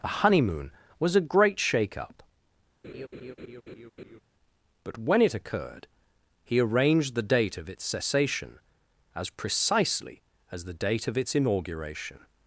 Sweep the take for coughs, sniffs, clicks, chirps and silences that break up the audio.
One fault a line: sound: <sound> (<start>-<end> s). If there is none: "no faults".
sound: laugh (2.8-4.2 s)